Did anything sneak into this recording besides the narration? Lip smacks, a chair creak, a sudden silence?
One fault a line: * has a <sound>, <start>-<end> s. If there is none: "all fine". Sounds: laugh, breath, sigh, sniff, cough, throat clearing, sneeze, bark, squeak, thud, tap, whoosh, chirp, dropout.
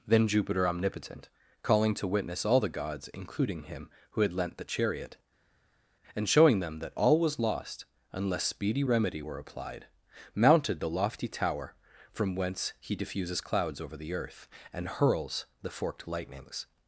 all fine